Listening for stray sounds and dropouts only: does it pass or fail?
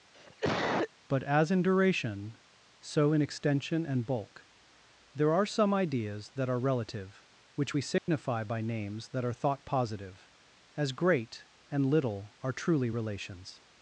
fail